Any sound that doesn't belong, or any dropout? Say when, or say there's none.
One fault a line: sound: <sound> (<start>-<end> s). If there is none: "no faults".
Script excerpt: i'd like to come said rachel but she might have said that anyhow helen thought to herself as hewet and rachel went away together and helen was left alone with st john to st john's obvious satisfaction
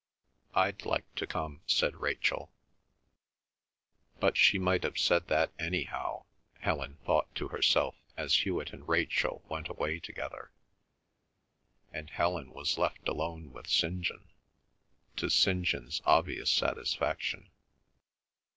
no faults